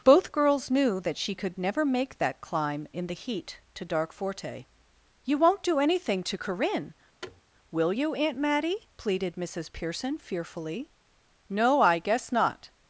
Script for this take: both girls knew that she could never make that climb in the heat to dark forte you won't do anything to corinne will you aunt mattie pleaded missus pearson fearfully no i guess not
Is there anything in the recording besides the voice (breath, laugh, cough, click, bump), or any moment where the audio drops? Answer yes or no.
yes